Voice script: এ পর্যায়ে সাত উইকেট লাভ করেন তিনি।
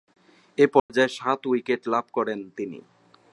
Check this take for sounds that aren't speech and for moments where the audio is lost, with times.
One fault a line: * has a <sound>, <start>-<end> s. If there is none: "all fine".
* has a dropout, 0.8-0.9 s